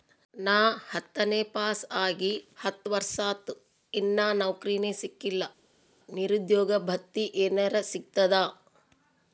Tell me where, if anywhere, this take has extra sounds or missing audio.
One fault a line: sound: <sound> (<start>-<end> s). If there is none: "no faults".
no faults